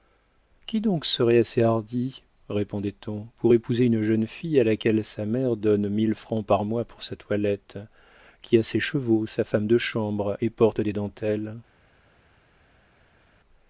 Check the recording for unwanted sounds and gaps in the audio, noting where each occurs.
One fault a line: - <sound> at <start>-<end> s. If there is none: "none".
none